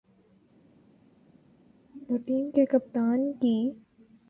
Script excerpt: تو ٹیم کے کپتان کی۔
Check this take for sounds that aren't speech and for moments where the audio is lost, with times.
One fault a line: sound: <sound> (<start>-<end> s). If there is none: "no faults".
no faults